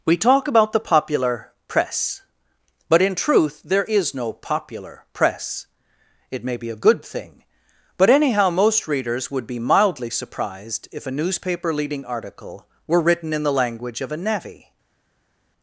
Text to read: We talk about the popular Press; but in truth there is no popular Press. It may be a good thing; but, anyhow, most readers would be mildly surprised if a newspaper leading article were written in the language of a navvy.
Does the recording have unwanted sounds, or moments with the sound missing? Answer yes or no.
no